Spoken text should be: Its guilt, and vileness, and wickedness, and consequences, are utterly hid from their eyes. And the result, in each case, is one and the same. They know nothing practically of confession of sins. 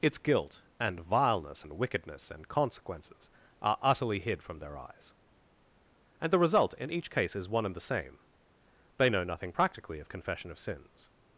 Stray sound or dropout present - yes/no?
no